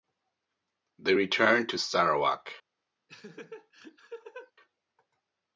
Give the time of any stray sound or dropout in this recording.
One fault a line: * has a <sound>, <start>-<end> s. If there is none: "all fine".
* has a laugh, 3.1-4.5 s